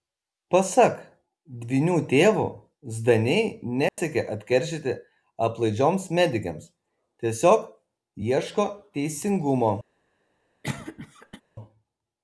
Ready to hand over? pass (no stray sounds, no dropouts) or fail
fail